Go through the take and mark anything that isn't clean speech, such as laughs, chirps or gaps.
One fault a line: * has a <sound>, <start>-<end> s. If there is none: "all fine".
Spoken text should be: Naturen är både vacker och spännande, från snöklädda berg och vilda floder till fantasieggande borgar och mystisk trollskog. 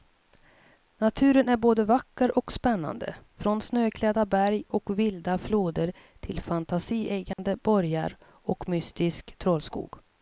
* has a dropout, 7.3-7.4 s